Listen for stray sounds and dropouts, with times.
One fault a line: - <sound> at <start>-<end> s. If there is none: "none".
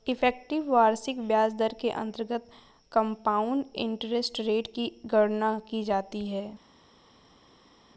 none